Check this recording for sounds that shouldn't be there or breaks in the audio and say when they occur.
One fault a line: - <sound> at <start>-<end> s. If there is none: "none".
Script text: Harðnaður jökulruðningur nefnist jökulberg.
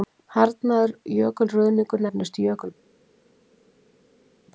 none